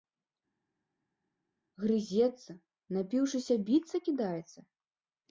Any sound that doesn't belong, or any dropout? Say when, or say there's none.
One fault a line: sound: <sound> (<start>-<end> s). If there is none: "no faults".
no faults